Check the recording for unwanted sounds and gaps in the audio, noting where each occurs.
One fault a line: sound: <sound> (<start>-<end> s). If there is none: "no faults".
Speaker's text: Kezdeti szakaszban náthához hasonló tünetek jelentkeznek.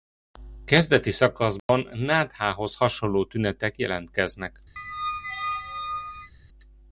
sound: dropout (1.6-1.7 s)
sound: squeak (4.8-6.3 s)